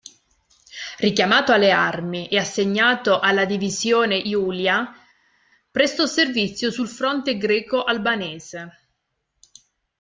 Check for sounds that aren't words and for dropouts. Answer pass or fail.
pass